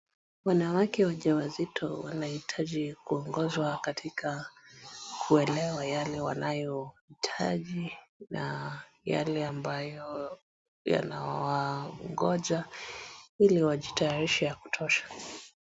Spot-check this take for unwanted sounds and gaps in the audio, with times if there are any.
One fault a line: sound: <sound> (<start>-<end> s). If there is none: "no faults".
no faults